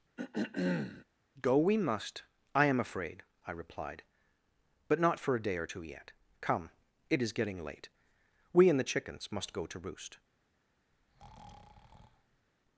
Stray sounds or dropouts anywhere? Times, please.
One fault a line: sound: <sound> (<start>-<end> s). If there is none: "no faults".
sound: throat clearing (0.2-1.1 s)
sound: breath (10.9-12.5 s)